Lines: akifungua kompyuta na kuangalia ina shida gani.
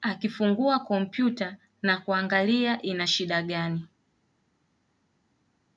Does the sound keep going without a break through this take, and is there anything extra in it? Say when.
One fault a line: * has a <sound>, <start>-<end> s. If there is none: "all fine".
all fine